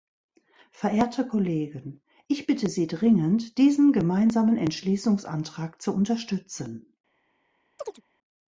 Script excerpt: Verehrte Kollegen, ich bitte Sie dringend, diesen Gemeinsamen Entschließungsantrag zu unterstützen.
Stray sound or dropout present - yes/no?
yes